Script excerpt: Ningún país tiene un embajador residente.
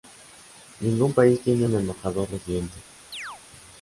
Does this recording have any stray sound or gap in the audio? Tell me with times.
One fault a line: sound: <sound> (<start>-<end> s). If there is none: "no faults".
sound: chirp (3.1-3.4 s)